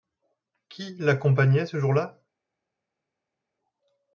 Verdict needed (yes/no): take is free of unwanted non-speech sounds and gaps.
yes